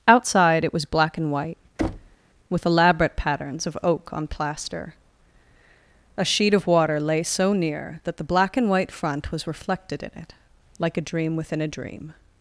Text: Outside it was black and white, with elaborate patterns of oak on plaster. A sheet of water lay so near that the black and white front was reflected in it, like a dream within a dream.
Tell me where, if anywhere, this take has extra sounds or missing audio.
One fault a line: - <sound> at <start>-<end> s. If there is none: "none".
- thud at 1.8-2.2 s